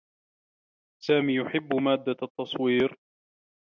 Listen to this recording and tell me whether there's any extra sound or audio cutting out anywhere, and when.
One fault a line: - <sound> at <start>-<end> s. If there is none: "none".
none